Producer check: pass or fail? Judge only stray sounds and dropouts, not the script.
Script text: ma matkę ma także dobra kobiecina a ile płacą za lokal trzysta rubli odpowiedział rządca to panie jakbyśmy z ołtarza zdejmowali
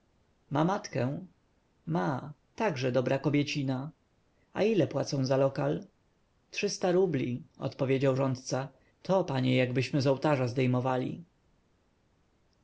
pass